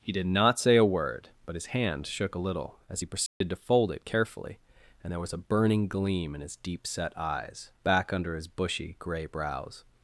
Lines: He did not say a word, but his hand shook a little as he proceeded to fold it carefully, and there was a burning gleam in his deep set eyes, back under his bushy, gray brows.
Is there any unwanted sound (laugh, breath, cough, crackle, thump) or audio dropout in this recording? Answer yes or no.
yes